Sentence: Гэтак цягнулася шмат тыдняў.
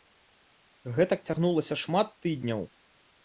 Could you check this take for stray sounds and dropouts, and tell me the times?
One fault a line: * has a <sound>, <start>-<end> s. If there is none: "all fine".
all fine